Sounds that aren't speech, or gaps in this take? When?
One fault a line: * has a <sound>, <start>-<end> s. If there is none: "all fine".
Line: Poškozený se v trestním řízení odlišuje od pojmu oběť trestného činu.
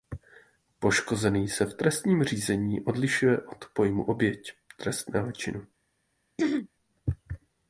* has a throat clearing, 6.4-6.7 s